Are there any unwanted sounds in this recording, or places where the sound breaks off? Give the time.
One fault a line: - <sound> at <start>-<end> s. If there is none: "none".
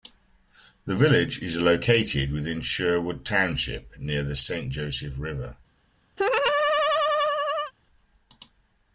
- laugh at 6.2-7.7 s